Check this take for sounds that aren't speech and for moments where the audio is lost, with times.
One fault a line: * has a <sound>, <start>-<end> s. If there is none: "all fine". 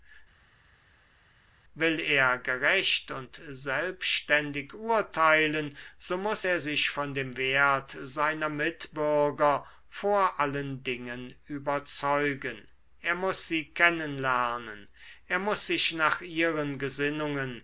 all fine